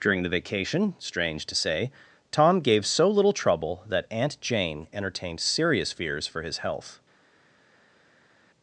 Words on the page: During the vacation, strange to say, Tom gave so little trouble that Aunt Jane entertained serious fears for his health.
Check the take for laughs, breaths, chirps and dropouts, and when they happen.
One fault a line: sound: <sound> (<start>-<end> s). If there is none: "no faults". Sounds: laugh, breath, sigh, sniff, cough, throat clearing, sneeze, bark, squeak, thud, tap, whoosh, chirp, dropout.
no faults